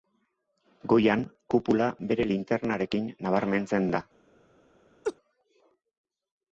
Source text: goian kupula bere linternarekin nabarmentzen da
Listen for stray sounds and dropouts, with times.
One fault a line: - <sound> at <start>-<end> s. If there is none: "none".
- laugh at 5.0-5.2 s